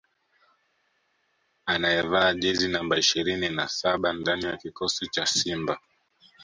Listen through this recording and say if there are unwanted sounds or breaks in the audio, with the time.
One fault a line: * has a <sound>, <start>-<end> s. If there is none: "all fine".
all fine